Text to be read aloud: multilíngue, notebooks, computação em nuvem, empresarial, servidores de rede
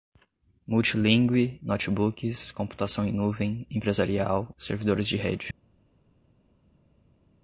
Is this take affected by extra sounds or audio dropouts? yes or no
no